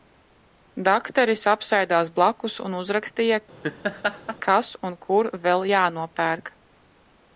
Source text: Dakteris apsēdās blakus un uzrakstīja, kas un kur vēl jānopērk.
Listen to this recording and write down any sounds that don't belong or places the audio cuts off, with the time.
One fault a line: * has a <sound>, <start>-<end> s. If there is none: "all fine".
* has a laugh, 3.6-4.4 s